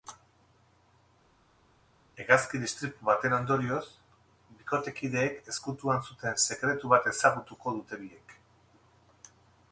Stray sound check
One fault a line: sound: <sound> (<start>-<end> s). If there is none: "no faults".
no faults